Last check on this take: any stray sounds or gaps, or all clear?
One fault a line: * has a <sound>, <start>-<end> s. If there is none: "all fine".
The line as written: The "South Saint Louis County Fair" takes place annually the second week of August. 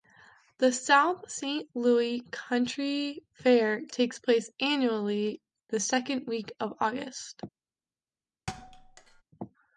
* has a thud, 8.5-9.2 s